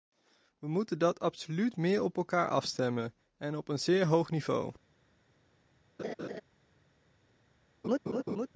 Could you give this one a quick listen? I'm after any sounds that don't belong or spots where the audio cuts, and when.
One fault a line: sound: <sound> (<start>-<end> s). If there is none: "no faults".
sound: laugh (6.0-6.4 s)
sound: laugh (7.8-8.5 s)